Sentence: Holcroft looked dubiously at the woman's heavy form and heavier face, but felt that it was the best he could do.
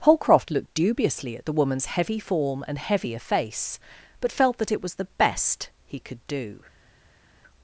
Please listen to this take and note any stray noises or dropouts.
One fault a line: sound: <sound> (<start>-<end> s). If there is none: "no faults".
no faults